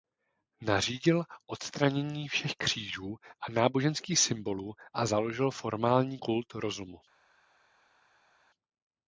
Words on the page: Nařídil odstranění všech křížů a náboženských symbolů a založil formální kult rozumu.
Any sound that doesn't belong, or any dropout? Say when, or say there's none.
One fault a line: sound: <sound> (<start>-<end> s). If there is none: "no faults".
no faults